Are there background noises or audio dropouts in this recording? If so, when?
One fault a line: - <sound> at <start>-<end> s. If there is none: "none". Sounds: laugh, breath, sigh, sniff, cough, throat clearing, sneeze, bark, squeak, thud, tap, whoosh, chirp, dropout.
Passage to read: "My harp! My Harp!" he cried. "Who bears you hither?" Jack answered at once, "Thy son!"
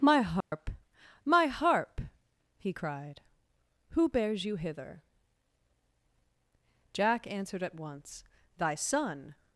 - dropout at 0.4-0.5 s